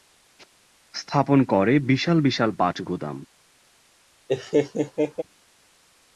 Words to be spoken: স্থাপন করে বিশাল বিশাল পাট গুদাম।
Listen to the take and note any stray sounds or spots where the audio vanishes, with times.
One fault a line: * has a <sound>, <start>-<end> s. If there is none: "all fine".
* has a laugh, 4.3-5.2 s